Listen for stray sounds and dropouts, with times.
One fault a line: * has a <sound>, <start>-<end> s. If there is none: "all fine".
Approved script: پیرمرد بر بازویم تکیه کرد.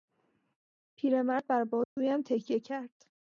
* has a dropout, 1.8-2.0 s